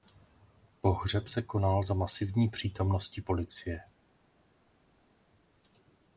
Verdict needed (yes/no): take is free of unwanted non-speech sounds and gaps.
yes